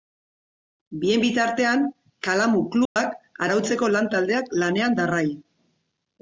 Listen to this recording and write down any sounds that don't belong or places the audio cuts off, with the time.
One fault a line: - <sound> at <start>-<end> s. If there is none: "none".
- dropout at 2.9-3.0 s